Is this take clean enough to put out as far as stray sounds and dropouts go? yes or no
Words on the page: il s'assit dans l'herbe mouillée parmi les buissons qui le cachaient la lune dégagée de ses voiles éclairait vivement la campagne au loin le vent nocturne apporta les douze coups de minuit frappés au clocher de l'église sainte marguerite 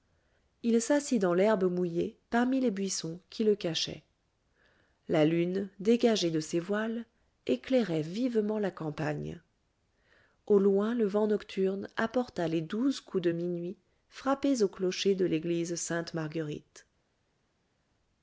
yes